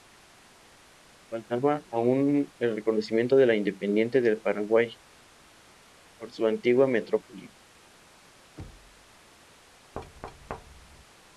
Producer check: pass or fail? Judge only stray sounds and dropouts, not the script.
fail